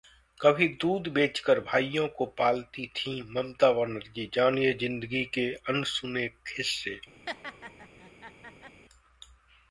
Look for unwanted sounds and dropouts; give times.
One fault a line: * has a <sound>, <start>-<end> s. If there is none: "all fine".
* has a laugh, 7.3-8.8 s